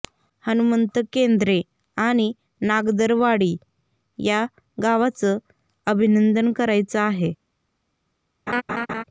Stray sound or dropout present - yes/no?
yes